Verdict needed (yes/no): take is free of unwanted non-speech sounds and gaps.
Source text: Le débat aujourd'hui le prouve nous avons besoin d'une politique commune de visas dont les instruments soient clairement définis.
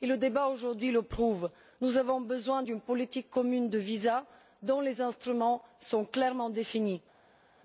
yes